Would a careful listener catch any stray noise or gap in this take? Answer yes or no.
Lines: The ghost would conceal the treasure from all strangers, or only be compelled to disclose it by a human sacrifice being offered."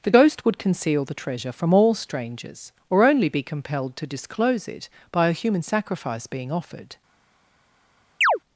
yes